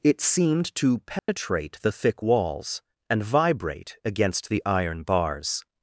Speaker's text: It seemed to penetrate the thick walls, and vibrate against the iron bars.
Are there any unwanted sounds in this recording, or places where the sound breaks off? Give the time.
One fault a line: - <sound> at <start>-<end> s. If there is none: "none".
- dropout at 1.2-1.3 s